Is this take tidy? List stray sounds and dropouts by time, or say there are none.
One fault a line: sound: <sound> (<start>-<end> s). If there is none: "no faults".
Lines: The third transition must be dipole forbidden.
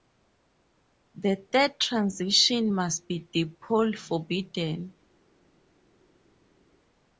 no faults